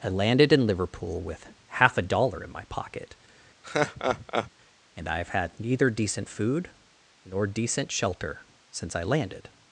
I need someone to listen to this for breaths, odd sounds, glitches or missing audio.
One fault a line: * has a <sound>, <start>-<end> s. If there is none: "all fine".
* has a laugh, 3.6-4.5 s